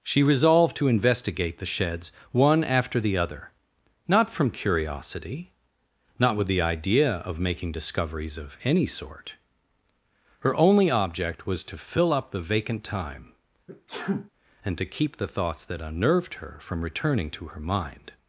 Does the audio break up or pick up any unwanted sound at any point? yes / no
yes